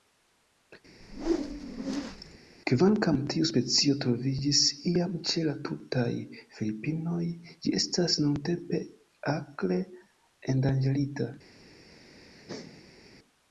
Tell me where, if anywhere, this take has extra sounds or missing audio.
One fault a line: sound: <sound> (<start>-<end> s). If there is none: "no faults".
sound: whoosh (1.0-2.4 s)
sound: laugh (11.9-13.1 s)